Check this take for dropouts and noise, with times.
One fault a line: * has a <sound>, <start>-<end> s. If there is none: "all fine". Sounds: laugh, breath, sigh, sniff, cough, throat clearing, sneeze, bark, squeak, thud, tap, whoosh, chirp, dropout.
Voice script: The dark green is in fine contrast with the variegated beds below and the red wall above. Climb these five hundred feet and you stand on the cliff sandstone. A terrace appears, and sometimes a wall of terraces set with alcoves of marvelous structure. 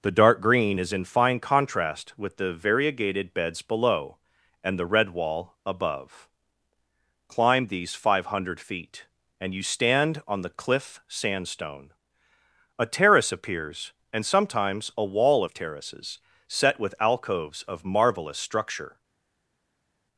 all fine